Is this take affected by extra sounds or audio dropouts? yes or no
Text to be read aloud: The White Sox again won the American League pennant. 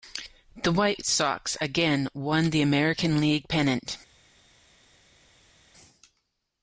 no